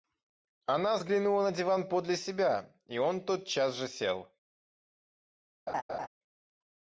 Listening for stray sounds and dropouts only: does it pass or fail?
fail